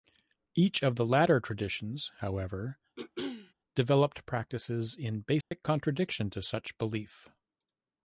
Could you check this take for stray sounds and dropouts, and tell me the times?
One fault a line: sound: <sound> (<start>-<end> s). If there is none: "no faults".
sound: throat clearing (3.0-3.5 s)
sound: dropout (5.4-5.5 s)